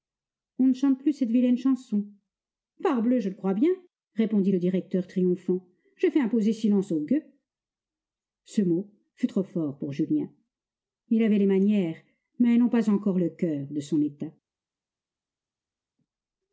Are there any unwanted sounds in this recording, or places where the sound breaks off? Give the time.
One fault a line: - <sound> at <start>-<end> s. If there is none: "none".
none